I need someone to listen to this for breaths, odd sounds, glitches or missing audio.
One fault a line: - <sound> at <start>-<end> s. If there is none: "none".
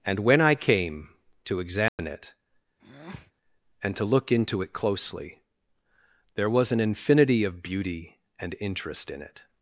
- dropout at 1.9-2.0 s
- breath at 2.8-3.3 s